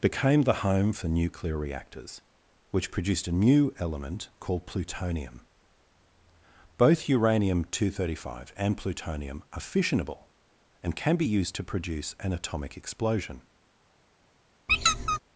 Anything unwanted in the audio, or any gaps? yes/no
yes